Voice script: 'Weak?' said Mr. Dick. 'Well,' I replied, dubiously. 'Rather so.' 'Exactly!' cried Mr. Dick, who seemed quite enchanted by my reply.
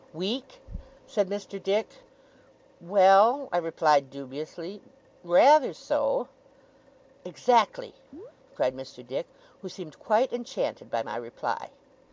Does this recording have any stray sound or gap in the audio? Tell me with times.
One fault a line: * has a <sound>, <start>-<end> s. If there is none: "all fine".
* has a chirp, 8.1-8.3 s